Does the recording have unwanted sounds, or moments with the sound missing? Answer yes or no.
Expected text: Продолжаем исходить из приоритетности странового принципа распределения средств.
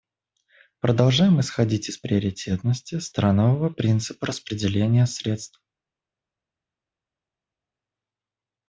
no